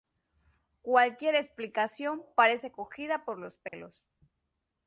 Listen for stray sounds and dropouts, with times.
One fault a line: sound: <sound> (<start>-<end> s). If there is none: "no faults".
sound: dropout (3.7-3.7 s)